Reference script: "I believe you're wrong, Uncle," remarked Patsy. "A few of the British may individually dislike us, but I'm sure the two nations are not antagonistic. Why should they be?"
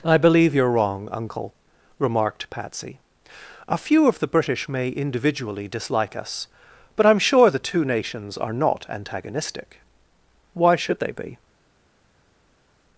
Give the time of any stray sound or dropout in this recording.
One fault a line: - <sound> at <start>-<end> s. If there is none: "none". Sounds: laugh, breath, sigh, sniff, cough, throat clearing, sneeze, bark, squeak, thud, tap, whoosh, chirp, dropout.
none